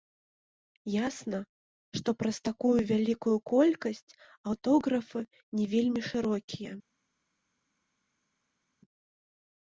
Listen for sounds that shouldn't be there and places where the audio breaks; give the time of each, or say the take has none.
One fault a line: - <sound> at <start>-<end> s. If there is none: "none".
none